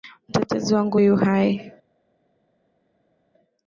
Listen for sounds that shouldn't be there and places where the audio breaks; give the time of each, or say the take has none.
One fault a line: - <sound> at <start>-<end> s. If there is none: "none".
none